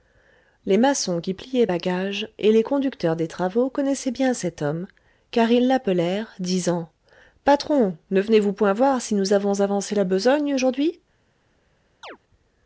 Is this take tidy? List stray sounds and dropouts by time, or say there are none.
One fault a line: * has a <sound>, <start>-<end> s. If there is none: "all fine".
* has a chirp, 12.0-12.2 s